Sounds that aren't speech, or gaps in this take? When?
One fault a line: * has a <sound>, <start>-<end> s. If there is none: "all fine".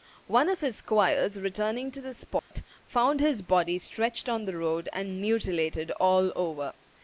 * has a dropout, 2.4-2.5 s